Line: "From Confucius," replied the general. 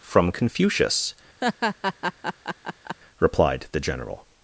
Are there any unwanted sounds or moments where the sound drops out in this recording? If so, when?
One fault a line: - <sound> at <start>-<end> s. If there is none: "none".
- laugh at 1.4-3.0 s